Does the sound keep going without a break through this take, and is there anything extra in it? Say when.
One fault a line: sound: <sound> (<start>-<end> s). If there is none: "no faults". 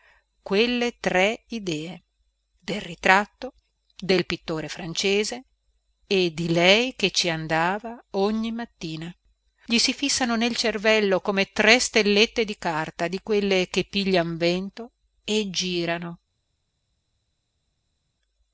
no faults